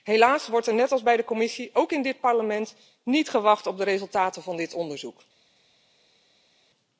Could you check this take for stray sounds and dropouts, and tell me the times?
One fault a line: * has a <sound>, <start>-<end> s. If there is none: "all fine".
all fine